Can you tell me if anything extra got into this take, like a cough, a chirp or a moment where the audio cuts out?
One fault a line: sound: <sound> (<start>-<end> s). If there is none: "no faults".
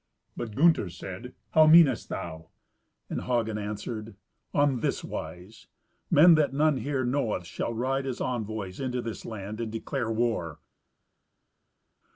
no faults